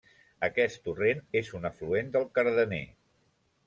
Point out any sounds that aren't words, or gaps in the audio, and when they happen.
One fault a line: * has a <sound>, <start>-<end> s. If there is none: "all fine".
all fine